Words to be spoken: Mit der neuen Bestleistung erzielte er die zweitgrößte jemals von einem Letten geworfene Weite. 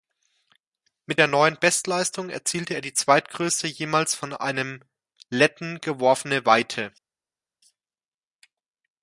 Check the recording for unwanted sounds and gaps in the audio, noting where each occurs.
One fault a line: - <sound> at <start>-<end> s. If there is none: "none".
none